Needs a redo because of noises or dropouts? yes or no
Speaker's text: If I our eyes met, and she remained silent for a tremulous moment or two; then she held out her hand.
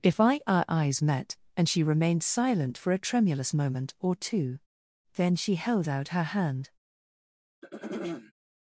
yes